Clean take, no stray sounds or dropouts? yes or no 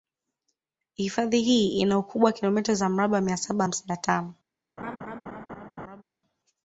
no